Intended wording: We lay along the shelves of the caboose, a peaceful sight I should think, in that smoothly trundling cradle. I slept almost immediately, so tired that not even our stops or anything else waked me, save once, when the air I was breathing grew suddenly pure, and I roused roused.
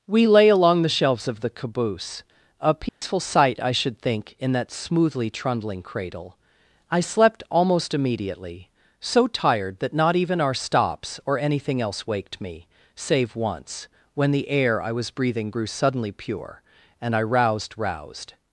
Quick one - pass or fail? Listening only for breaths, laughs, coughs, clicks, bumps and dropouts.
fail